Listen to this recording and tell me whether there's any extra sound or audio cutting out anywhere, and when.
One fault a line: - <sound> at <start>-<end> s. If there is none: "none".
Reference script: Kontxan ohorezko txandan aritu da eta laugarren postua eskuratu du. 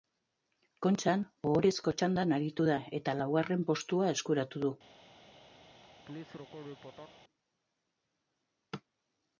- laugh at 5.8-7.2 s